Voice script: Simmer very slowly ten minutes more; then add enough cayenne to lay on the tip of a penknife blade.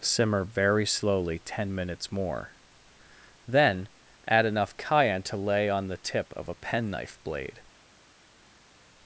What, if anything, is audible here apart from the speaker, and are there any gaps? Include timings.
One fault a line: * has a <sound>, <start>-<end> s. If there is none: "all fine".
all fine